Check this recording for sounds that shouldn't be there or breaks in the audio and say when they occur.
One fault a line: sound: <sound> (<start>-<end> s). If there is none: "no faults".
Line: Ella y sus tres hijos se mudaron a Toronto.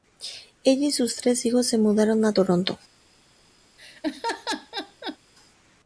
sound: laugh (3.8-5.2 s)